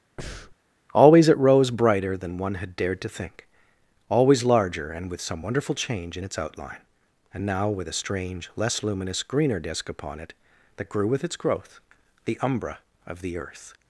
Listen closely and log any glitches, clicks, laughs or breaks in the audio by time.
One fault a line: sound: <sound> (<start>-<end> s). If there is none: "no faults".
sound: breath (0.2-0.6 s)